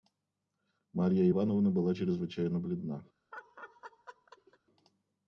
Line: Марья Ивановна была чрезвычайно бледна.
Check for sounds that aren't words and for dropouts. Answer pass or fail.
fail